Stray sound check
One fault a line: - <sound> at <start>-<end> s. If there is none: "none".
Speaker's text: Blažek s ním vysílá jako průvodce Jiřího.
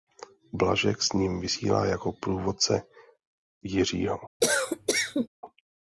- cough at 4.4-5.3 s